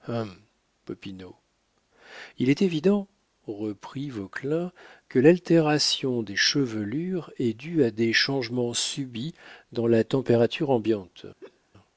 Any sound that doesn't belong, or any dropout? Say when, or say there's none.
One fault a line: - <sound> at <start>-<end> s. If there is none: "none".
- laugh at 11.4-11.6 s